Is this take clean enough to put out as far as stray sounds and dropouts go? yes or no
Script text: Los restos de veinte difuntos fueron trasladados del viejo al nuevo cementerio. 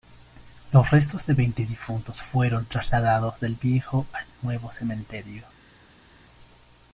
yes